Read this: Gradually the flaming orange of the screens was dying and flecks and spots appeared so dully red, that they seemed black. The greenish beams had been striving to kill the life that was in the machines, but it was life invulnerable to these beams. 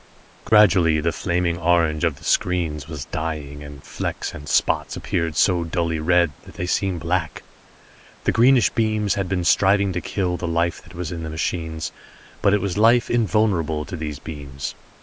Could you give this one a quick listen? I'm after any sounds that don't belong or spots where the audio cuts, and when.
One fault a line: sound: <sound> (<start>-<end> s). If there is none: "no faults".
sound: dropout (0.5-0.5 s)